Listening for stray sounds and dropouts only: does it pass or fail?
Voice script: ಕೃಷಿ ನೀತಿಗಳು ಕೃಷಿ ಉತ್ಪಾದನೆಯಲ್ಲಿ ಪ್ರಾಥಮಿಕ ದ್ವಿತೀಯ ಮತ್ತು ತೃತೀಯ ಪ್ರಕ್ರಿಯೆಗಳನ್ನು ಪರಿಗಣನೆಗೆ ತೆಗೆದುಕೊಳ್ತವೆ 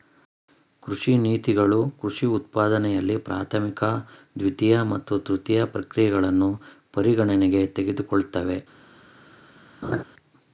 fail